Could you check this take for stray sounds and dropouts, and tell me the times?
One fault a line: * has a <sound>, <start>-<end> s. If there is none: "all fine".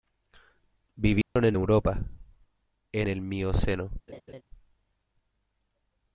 * has a dropout, 1.2-1.4 s
* has a laugh, 4.1-4.4 s